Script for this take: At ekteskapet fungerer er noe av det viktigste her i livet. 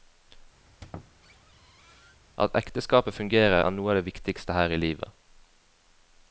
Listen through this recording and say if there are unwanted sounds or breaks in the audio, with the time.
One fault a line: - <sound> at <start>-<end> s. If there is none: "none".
- squeak at 0.7-2.2 s